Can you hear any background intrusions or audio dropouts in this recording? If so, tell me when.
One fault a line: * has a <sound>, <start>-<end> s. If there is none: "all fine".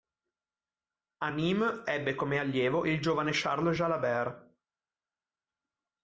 all fine